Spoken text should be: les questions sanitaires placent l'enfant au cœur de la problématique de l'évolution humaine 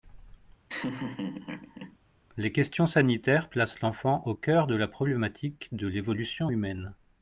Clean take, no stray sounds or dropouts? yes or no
no